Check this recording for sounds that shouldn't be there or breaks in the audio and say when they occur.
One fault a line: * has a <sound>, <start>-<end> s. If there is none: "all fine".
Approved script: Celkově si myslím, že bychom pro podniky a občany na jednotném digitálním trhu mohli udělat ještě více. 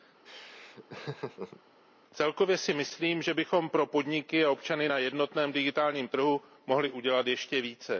* has a laugh, 0.3-1.6 s